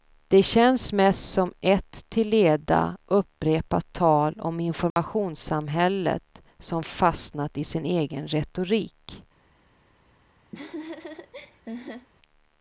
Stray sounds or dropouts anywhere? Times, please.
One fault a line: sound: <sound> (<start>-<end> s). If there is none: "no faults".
sound: dropout (4.9-5.0 s)
sound: laugh (10.5-12.1 s)